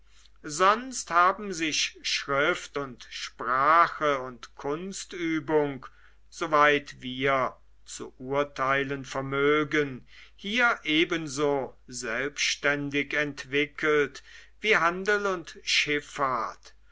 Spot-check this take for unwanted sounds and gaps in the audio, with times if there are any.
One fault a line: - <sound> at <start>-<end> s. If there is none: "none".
none